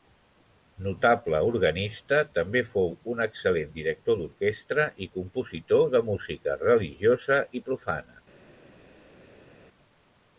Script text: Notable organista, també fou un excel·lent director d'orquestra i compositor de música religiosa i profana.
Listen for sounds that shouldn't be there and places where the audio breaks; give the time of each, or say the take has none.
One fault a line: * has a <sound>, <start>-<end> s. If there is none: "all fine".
all fine